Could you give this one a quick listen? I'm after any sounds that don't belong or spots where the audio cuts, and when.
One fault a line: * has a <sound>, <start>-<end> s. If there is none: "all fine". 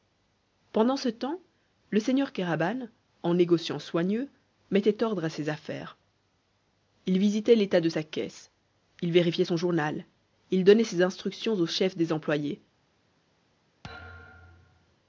* has a thud, 13.8-15.0 s